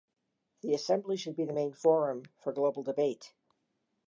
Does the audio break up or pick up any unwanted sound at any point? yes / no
no